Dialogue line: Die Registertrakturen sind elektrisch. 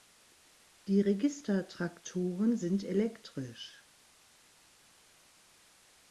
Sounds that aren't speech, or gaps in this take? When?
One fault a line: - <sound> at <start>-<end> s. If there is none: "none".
none